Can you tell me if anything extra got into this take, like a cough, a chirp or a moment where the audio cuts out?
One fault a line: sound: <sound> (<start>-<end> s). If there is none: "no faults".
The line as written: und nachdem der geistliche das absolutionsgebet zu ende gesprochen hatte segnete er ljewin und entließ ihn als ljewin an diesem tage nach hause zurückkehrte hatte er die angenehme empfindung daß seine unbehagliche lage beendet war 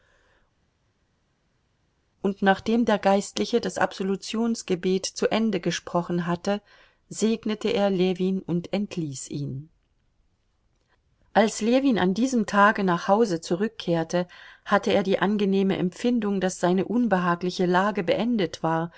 no faults